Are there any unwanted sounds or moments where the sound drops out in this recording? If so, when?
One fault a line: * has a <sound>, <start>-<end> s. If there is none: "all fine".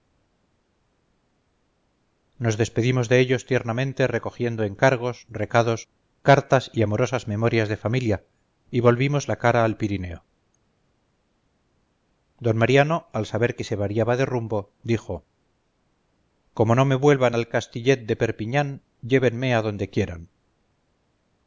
all fine